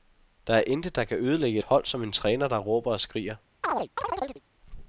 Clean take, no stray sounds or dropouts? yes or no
no